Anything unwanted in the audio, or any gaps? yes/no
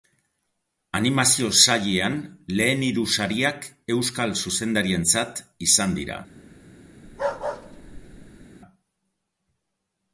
yes